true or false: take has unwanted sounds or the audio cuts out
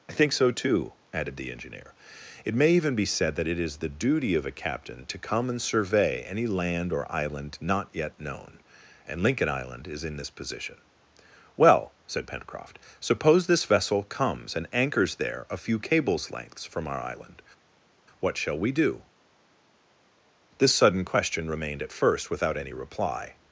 false